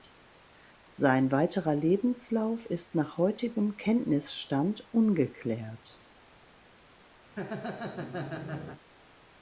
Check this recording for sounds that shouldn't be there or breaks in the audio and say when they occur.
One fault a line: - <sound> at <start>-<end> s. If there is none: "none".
- laugh at 7.3-8.8 s